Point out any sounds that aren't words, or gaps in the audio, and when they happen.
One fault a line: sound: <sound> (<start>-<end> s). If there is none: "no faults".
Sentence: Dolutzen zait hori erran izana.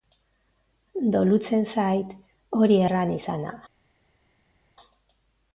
no faults